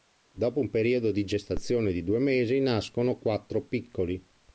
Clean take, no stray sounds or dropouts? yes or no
yes